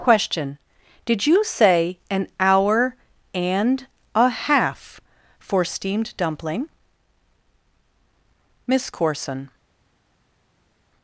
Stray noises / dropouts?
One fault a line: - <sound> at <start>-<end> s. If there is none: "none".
none